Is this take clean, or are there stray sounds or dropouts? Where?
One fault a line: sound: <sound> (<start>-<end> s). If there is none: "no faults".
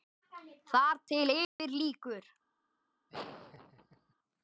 sound: dropout (1.4-1.6 s)
sound: laugh (3.1-4.1 s)